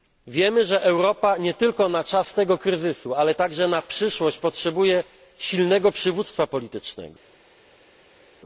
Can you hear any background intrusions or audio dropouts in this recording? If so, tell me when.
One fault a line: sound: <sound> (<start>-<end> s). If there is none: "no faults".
no faults